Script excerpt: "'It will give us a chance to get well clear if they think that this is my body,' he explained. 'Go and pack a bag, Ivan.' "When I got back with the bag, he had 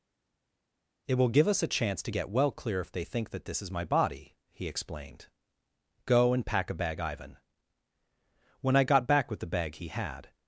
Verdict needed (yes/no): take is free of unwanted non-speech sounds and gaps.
yes